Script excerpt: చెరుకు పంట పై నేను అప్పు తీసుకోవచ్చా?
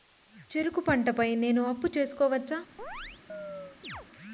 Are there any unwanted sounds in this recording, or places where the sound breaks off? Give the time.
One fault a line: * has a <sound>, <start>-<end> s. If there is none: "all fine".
* has a chirp, 2.8-4.1 s